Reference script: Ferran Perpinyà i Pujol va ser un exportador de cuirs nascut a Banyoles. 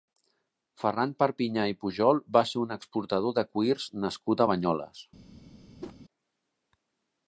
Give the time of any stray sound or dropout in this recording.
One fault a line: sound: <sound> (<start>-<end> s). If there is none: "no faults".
sound: whoosh (5.8-6.0 s)